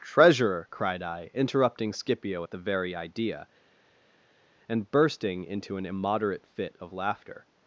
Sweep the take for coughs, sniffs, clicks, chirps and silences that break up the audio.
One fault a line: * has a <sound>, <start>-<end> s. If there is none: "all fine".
all fine